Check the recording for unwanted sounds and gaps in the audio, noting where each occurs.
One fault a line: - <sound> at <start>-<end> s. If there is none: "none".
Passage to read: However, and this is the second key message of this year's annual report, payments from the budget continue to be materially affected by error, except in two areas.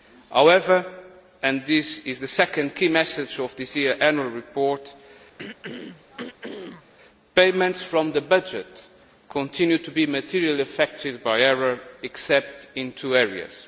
- throat clearing at 5.4-6.9 s